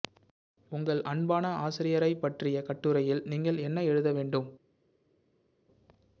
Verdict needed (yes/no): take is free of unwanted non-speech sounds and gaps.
yes